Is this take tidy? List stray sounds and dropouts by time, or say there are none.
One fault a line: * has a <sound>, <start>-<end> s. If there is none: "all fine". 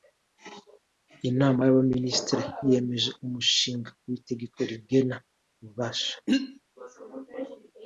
* has a throat clearing, 6.3-6.6 s